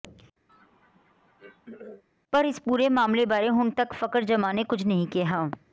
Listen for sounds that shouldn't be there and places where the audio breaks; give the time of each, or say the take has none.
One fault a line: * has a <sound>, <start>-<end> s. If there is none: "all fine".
* has a throat clearing, 0.5-2.0 s